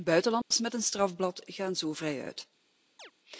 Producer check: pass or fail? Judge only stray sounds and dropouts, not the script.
fail